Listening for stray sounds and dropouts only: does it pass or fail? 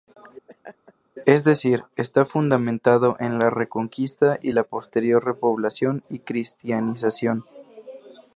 fail